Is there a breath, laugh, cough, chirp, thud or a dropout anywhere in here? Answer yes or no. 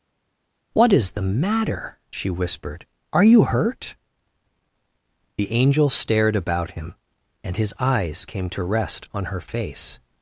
no